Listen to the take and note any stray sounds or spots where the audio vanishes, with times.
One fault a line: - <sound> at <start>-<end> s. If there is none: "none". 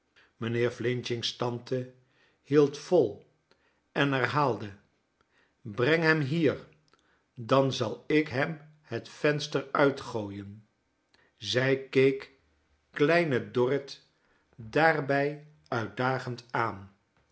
none